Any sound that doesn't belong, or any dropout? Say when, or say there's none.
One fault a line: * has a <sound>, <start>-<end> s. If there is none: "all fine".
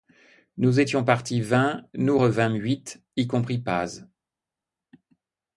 all fine